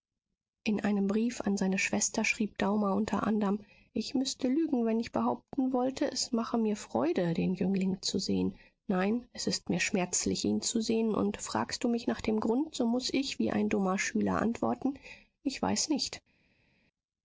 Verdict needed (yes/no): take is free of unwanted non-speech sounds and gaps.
yes